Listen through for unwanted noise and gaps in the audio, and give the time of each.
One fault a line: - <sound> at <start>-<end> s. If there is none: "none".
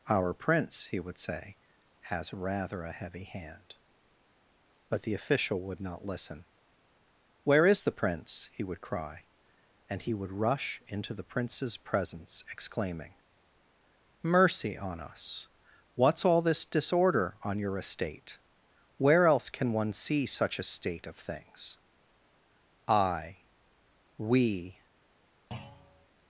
- thud at 25.5-26.1 s